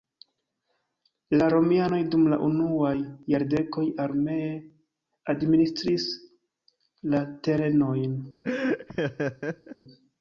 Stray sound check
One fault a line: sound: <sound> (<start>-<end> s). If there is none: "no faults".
sound: laugh (8.4-9.8 s)